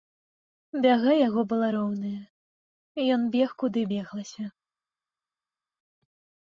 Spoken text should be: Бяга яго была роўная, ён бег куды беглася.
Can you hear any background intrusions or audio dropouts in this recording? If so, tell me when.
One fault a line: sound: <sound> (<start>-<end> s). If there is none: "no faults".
no faults